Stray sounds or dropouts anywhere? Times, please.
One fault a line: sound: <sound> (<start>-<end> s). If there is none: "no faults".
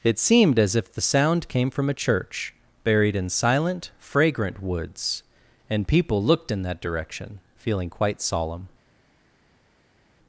no faults